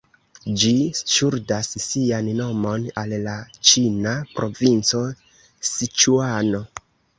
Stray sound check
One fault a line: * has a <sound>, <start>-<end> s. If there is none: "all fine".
all fine